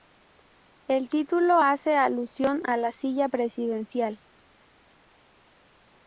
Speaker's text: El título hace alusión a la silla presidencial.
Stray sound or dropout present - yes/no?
no